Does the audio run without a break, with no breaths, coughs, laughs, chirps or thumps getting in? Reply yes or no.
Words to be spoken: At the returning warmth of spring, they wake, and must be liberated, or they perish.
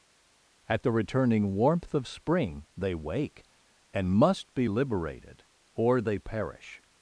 yes